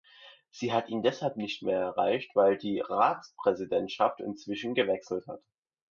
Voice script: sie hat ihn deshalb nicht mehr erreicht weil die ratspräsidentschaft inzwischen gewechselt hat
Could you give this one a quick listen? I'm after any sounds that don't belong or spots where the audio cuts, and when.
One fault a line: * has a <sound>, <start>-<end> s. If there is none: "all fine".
all fine